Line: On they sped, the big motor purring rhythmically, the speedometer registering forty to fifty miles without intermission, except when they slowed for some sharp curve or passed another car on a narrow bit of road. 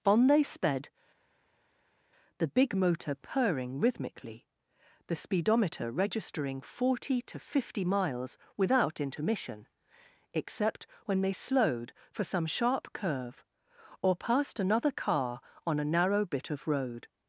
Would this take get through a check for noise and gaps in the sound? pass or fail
pass